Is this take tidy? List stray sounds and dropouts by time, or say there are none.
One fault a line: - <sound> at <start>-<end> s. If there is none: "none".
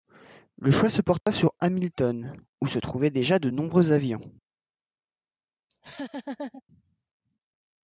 - dropout at 1.2-1.3 s
- laugh at 5.7-6.6 s